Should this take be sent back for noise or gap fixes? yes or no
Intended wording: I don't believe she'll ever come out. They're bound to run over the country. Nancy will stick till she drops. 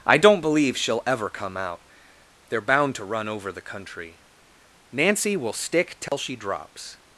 yes